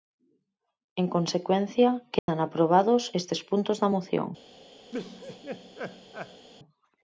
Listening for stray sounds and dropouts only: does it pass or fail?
fail